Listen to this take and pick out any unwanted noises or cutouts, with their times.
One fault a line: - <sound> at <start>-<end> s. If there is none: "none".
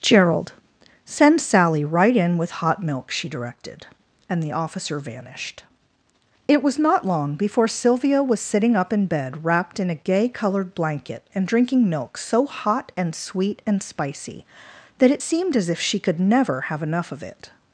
none